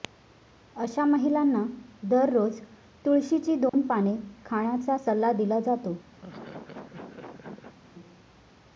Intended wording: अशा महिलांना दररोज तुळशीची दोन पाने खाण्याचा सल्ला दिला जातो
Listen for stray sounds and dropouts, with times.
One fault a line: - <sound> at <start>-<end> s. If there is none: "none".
- dropout at 3.7-3.7 s
- laugh at 6.2-7.8 s